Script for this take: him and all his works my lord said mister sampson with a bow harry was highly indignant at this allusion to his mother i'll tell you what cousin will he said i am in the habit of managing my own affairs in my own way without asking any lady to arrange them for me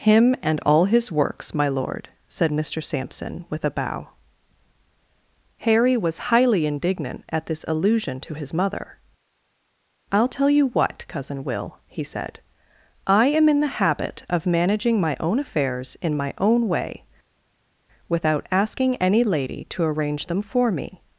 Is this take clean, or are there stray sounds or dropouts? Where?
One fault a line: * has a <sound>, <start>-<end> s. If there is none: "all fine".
all fine